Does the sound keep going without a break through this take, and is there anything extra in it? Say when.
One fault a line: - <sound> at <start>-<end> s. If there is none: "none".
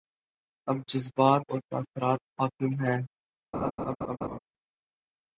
- laugh at 3.5-4.4 s